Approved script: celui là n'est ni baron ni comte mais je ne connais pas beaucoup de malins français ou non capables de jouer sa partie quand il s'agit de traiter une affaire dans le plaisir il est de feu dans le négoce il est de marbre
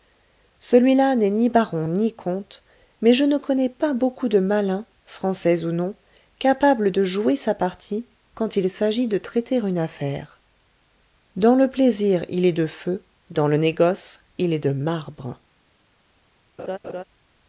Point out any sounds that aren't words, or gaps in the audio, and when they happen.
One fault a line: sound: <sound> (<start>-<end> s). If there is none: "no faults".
sound: laugh (16.6-17.0 s)